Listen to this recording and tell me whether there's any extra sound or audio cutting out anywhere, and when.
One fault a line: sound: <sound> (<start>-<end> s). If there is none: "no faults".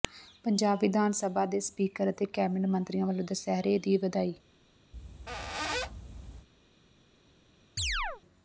sound: squeak (4.9-6.5 s)
sound: chirp (7.8-8.2 s)